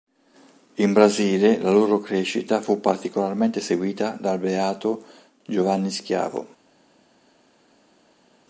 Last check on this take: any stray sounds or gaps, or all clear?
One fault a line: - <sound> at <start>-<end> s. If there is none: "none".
none